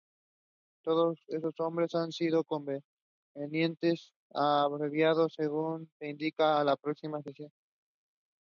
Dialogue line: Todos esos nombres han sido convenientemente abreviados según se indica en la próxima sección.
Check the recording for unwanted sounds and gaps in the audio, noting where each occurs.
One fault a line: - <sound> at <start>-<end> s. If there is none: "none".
none